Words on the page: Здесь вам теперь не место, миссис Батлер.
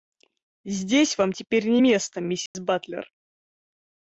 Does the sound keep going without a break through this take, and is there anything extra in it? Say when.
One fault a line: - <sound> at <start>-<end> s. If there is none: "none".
- dropout at 2.5-2.5 s